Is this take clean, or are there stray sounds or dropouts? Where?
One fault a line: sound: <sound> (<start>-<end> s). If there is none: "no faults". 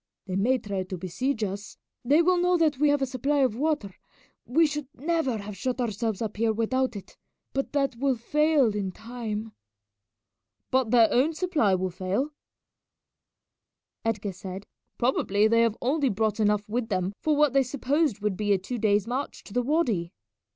no faults